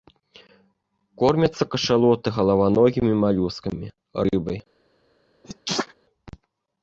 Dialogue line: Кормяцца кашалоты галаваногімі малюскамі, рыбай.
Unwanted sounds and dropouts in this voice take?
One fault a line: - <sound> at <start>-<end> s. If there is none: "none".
- sneeze at 5.4-5.9 s